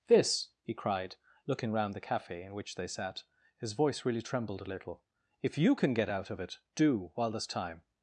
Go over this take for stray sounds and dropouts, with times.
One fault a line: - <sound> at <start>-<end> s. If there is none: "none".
none